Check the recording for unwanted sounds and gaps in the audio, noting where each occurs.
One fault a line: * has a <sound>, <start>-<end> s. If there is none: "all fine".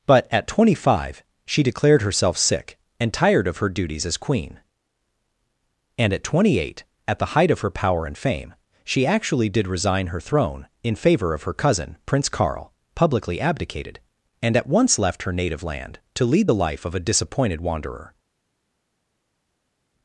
all fine